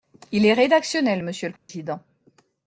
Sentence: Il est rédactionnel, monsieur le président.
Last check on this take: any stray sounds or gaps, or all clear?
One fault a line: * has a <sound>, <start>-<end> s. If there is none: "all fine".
* has a dropout, 1.6-1.7 s